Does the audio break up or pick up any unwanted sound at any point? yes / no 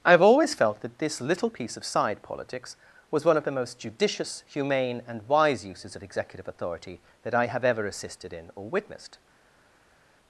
no